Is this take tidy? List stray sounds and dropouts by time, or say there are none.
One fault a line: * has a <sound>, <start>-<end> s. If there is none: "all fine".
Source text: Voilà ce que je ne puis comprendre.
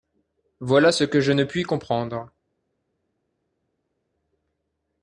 all fine